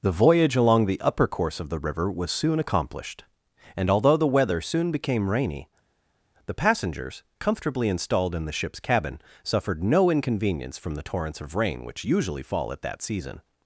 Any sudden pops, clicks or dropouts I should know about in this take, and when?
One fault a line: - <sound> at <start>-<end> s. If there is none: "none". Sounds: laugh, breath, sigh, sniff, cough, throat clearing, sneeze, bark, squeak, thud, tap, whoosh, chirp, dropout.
none